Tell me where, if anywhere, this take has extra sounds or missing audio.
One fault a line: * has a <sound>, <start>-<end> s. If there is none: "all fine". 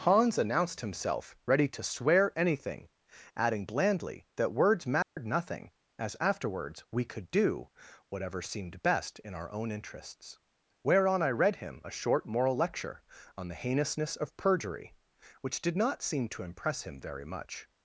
* has a dropout, 5.0-5.2 s